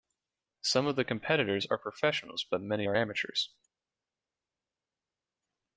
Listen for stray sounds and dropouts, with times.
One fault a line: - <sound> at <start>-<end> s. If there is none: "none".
none